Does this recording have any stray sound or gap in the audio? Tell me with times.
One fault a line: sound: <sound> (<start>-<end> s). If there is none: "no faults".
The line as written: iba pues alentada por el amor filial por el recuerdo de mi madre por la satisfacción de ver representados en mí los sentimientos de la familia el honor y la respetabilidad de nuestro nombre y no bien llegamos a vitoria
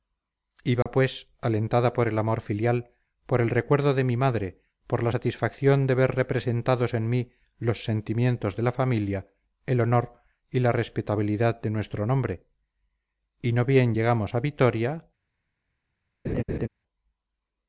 sound: dropout (0.8-0.9 s)
sound: laugh (16.2-16.7 s)